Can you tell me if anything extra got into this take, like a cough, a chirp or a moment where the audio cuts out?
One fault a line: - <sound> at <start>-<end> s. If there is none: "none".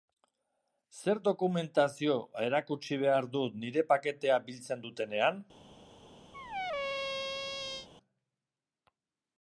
- squeak at 6.3-7.9 s